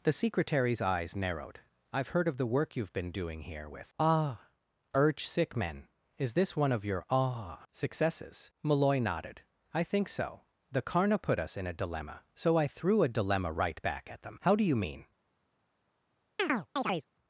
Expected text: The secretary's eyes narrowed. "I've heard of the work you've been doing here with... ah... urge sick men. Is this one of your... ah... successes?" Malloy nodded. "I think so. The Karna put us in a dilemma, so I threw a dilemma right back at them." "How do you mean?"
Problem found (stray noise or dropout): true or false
true